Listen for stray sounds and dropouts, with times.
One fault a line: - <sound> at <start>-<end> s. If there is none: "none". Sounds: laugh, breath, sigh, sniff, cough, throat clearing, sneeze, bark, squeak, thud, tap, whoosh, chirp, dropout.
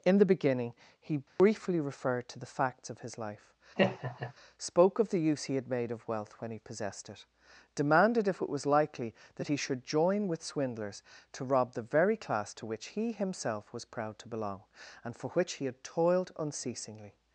- dropout at 1.3-1.4 s
- laugh at 3.8-4.3 s